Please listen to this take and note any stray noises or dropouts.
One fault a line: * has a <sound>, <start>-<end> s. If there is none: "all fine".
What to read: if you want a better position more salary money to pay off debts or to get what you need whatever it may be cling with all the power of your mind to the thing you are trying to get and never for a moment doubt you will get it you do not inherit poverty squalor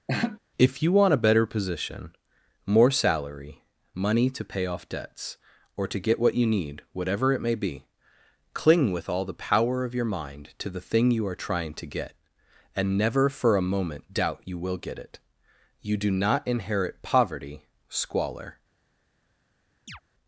* has a laugh, 0.1-0.4 s
* has a chirp, 19.9-20.0 s